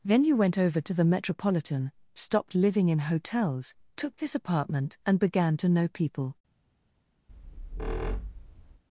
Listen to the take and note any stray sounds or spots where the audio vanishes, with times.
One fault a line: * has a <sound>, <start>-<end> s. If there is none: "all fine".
* has a squeak, 7.3-8.8 s